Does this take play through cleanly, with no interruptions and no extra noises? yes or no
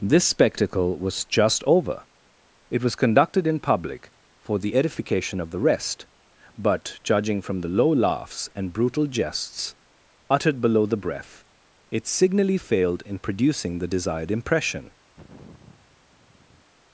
no